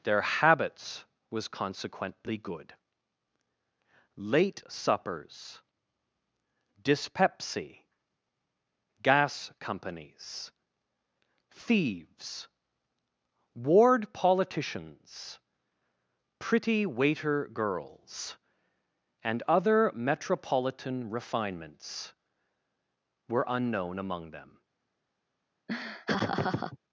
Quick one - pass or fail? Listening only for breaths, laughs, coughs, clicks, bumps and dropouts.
fail